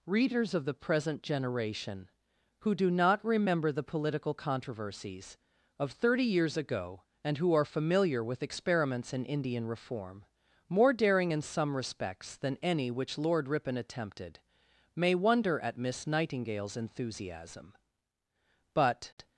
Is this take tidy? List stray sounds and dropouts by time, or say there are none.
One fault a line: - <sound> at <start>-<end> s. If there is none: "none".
none